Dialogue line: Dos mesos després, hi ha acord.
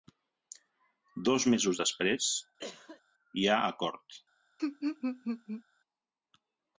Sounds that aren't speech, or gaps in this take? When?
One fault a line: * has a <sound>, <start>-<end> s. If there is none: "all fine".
* has a cough, 2.6-3.0 s
* has a laugh, 4.6-5.6 s